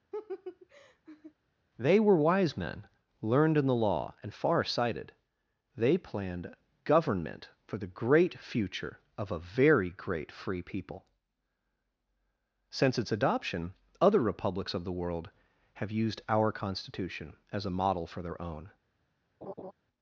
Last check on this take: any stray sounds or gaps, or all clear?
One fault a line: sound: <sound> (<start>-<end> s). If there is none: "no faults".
sound: laugh (0.1-1.3 s)
sound: laugh (19.4-19.7 s)